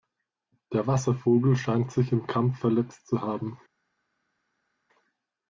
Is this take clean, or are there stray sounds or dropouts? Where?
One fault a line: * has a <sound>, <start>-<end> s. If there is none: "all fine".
all fine